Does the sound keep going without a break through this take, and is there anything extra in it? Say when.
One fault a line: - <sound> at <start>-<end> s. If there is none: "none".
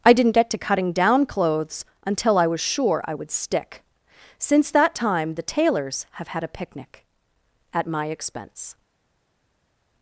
none